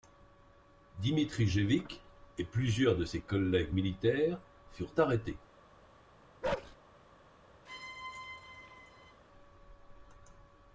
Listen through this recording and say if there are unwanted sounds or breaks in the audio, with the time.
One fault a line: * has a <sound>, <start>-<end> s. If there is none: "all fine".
* has a bark, 6.4-6.8 s
* has a squeak, 7.7-9.2 s